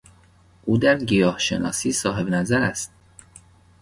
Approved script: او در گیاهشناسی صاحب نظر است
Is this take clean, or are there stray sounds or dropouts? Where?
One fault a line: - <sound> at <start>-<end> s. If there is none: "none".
none